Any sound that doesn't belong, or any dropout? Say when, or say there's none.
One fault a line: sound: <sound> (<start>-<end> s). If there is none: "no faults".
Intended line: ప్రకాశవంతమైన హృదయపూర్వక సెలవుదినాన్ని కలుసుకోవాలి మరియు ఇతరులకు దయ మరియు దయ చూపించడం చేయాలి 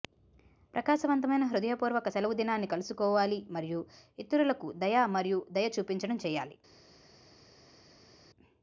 no faults